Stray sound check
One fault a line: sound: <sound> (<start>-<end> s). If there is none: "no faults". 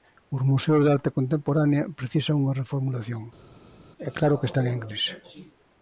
no faults